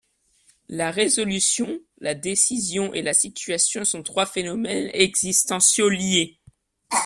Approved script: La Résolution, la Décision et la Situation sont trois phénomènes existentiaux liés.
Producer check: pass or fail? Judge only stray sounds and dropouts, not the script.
pass